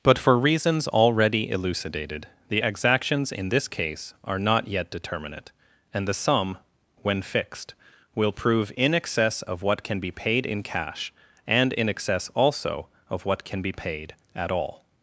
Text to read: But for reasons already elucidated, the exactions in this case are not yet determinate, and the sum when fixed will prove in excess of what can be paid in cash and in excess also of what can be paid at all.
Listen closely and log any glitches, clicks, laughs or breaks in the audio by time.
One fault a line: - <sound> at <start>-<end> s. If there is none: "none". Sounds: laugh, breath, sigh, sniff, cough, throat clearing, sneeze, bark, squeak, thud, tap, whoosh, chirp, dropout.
none